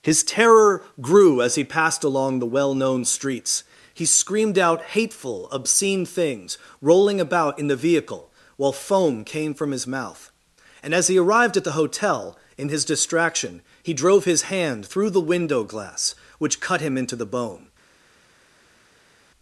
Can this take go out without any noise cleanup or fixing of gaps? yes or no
yes